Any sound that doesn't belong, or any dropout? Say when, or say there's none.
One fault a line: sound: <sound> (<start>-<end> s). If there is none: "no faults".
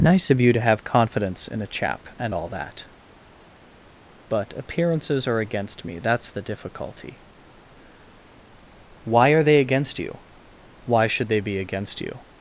no faults